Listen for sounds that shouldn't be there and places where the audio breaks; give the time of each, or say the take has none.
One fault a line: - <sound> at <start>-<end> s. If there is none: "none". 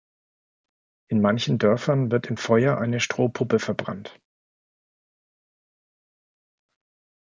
none